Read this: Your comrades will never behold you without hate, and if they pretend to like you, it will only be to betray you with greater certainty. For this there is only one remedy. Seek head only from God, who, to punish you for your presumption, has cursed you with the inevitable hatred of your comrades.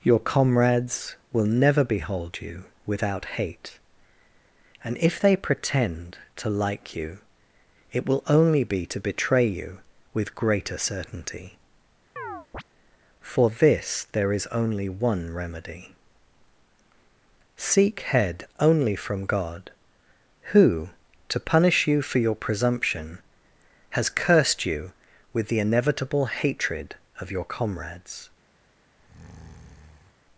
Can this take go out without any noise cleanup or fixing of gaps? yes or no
no